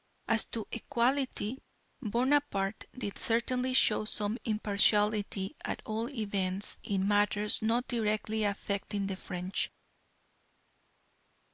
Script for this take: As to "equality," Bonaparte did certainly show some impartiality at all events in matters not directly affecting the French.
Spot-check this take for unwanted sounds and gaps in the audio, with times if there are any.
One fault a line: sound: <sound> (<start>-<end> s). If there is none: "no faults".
no faults